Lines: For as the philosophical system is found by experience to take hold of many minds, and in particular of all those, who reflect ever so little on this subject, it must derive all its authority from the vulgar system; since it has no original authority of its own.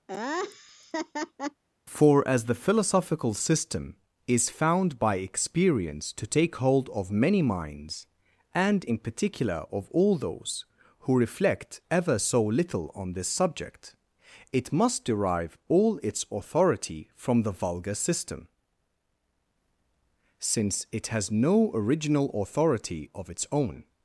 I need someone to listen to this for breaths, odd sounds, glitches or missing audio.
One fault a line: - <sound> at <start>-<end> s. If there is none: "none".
- laugh at 0.1-1.6 s